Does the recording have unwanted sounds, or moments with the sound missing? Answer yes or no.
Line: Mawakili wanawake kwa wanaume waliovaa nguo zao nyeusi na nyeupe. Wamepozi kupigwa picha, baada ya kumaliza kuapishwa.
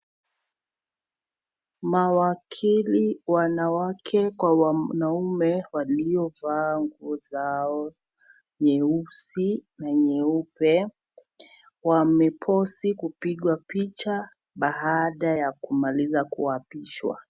no